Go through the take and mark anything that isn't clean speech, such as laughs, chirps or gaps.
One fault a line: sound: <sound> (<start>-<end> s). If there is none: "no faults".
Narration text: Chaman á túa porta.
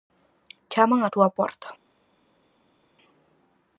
no faults